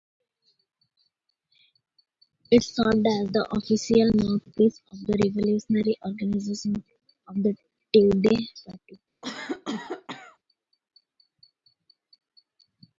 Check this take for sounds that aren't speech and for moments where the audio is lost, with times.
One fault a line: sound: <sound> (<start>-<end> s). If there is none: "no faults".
sound: cough (9.2-10.4 s)